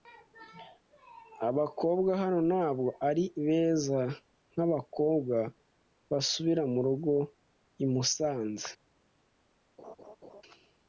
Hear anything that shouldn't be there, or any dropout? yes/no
yes